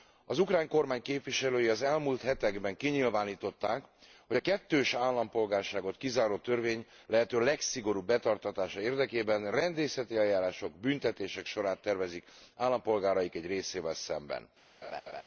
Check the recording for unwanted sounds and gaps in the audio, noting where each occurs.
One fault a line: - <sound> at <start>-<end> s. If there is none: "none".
- laugh at 14.8-15.2 s